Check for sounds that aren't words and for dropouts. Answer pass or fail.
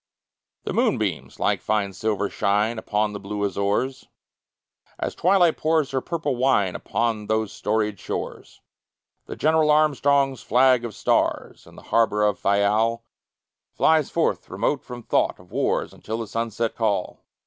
pass